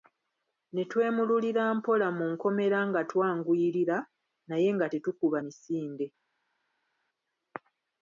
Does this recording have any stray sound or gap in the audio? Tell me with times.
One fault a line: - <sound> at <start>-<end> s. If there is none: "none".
none